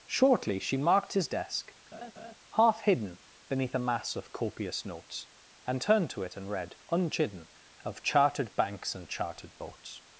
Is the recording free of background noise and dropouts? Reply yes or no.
no